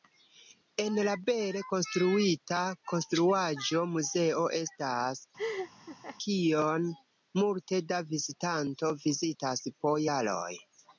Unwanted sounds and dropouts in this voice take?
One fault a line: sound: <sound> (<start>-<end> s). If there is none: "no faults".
sound: laugh (5.4-6.2 s)